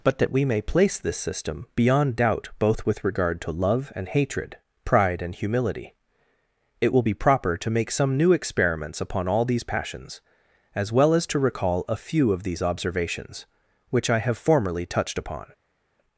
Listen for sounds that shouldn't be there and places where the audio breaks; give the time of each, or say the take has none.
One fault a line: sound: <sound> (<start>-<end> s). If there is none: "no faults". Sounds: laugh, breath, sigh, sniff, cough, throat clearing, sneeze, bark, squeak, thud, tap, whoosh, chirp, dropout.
no faults